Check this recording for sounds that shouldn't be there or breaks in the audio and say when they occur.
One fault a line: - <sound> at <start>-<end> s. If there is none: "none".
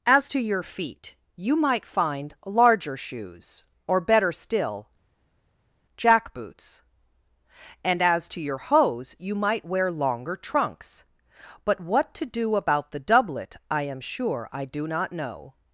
none